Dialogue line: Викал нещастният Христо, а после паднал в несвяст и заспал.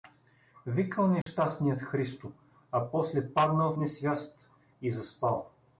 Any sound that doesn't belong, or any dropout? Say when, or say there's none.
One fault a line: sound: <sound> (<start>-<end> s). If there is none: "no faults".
sound: dropout (1.2-1.3 s)